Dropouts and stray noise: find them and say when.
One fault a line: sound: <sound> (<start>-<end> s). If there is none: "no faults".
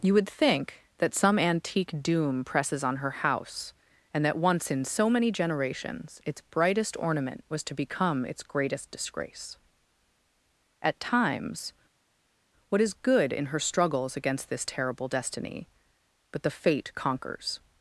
no faults